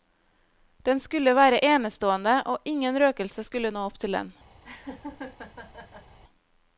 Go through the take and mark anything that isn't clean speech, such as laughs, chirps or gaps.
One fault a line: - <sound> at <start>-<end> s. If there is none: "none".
- laugh at 4.6-6.2 s